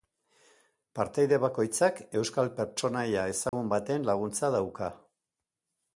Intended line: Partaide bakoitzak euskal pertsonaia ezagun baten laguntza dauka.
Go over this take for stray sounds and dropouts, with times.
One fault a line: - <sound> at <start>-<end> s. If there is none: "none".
- dropout at 3.5-3.5 s